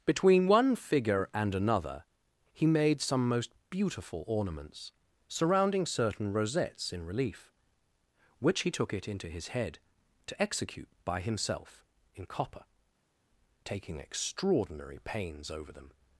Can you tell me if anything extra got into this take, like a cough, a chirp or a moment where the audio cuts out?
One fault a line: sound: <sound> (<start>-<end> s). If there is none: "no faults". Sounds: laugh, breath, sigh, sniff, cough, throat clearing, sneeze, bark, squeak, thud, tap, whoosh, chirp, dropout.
no faults